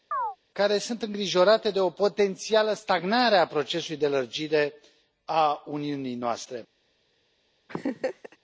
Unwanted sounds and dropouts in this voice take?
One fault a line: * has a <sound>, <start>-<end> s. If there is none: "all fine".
* has a chirp, 0.1-0.4 s
* has a laugh, 7.7-8.4 s